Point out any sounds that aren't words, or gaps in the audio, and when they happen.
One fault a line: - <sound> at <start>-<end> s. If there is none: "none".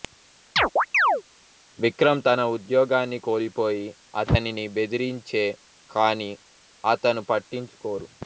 - chirp at 0.6-1.2 s